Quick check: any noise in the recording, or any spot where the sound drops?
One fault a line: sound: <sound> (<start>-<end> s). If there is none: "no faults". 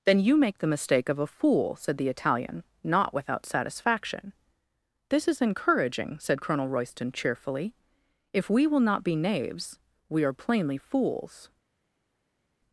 no faults